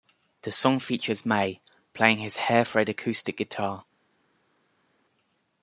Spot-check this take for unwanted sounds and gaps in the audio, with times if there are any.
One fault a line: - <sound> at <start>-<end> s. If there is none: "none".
none